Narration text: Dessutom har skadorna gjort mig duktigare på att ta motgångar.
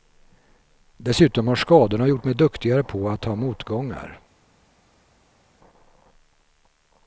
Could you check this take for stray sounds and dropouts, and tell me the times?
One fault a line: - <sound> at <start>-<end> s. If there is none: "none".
none